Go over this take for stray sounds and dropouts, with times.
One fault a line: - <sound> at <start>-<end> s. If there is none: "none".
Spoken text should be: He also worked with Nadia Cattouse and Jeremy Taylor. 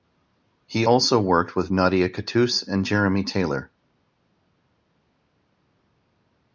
none